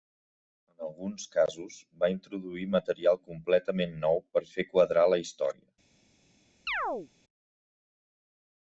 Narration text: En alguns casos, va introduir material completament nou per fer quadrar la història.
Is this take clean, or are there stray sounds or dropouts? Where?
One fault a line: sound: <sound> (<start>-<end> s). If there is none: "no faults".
sound: chirp (6.7-7.1 s)